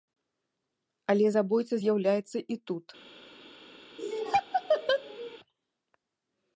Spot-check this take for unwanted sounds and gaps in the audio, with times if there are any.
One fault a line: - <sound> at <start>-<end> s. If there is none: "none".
- laugh at 4.0-5.4 s